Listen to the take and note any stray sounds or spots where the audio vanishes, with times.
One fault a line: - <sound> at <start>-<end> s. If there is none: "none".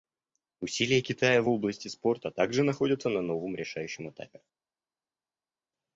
none